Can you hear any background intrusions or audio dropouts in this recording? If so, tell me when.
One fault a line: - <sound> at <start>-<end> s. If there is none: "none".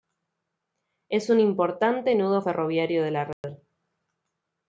- dropout at 3.3-3.4 s